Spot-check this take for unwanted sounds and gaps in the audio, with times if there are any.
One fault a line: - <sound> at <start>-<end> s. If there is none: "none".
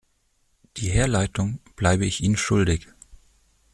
none